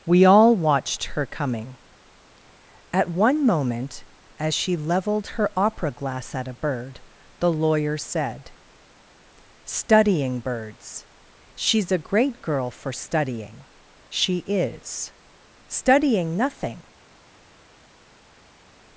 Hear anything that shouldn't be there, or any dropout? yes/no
no